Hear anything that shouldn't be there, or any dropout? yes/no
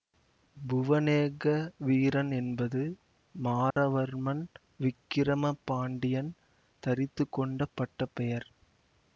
yes